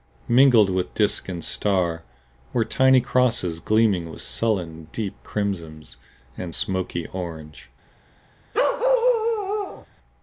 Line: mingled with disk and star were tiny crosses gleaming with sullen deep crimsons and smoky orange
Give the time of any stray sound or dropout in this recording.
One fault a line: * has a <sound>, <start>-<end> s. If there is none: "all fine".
* has a bark, 8.5-9.9 s